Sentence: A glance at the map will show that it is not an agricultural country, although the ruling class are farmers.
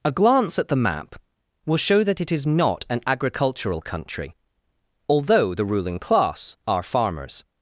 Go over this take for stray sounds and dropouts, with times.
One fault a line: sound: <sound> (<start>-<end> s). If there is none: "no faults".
no faults